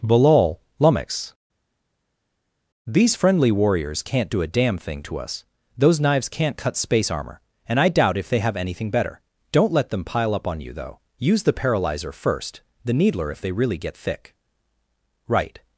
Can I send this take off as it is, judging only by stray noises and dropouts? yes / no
yes